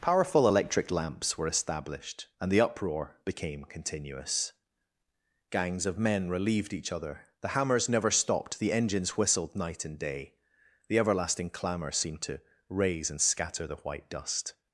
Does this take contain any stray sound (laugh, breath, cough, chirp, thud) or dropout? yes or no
no